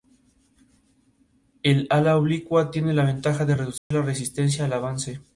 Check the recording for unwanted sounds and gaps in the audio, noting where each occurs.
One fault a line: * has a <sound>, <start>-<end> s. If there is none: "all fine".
* has a dropout, 3.8-3.9 s